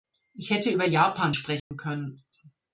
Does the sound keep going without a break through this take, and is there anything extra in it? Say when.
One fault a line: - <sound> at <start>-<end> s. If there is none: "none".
- dropout at 1.6-1.7 s